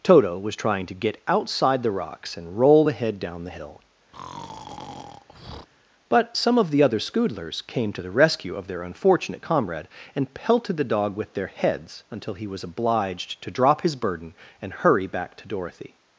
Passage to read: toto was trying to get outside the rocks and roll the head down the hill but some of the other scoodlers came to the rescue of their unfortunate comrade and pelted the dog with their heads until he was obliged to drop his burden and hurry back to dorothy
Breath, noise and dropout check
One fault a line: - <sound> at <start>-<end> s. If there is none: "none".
- breath at 4.1-5.7 s